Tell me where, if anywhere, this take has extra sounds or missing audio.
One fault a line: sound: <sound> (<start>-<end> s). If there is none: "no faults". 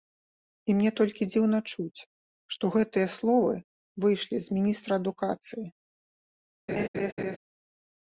sound: laugh (6.7-7.4 s)